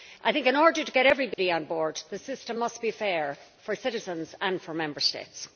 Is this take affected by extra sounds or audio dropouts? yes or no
yes